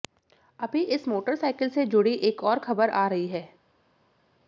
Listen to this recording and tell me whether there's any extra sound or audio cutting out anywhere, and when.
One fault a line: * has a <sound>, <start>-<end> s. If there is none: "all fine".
all fine